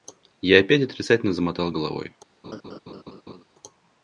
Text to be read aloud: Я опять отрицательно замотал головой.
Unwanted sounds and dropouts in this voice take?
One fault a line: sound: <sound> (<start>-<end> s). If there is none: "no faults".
sound: laugh (2.4-3.4 s)